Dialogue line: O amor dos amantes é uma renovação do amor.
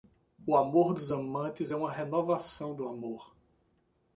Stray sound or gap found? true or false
false